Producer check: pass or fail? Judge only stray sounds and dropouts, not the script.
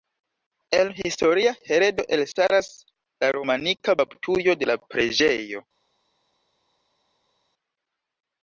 pass